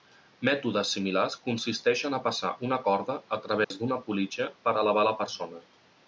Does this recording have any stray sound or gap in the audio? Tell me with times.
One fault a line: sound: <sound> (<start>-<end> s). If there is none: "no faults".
sound: dropout (3.6-3.7 s)